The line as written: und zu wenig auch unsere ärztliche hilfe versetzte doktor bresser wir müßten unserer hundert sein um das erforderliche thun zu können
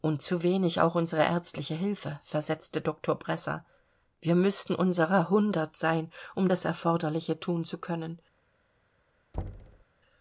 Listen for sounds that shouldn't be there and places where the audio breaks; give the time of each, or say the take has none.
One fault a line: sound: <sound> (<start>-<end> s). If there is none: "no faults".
sound: thud (9.3-9.8 s)